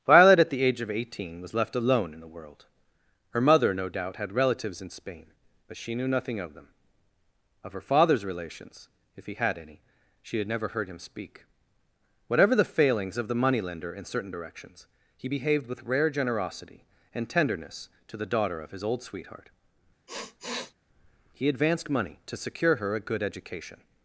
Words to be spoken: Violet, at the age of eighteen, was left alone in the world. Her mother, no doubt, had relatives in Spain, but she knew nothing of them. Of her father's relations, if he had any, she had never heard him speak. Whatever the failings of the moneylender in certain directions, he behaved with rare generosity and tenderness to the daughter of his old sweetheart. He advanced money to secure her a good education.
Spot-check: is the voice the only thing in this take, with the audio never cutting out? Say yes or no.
no